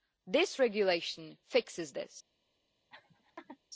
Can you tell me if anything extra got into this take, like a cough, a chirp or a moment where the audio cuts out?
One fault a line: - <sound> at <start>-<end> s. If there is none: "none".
- laugh at 2.9-3.6 s